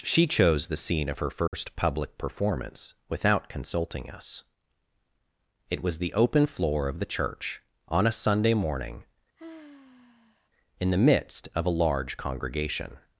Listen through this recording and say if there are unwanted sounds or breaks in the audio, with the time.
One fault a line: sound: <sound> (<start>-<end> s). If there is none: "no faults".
sound: dropout (1.5-1.5 s)
sound: sigh (9.4-10.5 s)